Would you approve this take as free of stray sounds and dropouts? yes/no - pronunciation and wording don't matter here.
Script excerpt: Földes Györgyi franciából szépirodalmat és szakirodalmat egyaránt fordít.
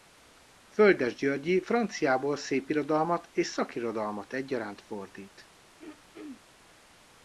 no